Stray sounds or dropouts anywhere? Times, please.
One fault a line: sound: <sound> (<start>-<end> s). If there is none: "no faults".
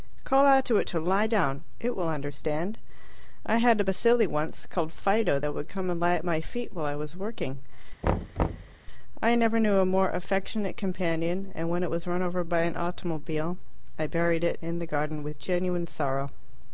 sound: thud (8.0-8.8 s)